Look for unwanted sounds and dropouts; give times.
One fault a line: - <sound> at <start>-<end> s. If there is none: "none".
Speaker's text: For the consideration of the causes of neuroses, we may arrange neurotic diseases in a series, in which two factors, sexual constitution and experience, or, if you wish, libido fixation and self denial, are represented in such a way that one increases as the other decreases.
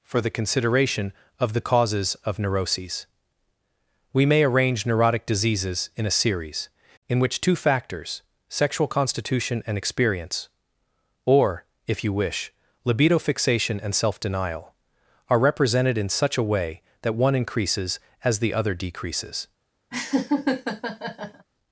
- laugh at 19.9-21.5 s